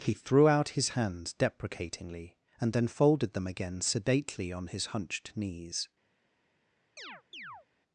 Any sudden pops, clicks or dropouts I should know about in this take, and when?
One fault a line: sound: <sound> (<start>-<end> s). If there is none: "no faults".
sound: chirp (7.0-7.7 s)